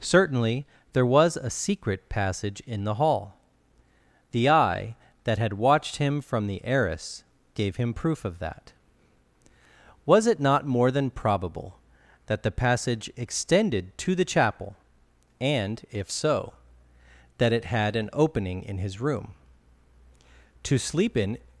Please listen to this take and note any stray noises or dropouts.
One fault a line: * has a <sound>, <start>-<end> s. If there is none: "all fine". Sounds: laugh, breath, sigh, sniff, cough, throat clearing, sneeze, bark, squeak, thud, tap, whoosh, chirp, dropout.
all fine